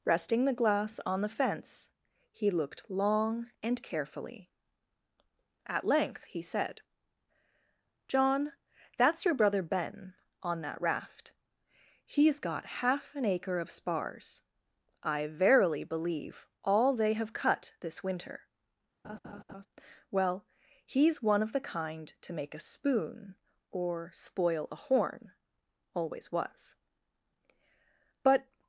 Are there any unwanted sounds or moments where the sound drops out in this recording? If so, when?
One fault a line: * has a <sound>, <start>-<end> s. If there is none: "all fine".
* has a laugh, 19.0-19.7 s